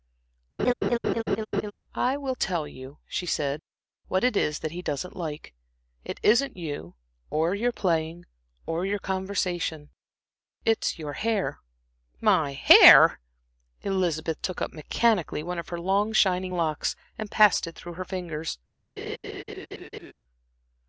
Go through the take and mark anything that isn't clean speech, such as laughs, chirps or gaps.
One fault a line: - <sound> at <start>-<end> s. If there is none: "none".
- laugh at 0.6-1.7 s
- laugh at 19.0-20.1 s